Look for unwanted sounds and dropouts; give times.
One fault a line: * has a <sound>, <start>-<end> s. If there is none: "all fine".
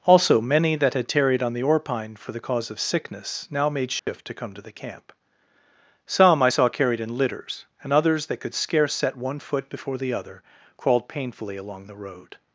* has a dropout, 4.0-4.1 s